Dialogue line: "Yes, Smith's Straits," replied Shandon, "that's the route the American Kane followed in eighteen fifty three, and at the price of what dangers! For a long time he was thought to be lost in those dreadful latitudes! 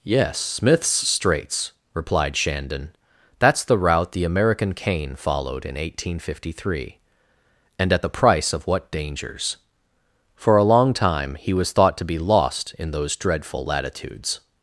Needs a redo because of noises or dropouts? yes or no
no